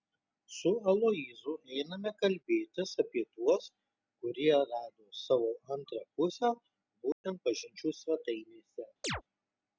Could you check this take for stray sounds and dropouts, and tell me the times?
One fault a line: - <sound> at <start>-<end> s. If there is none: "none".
- dropout at 7.1-7.2 s
- chirp at 9.0-9.2 s